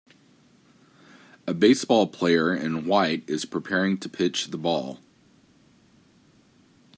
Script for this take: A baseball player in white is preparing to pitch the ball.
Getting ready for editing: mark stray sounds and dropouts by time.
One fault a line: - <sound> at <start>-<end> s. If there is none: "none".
none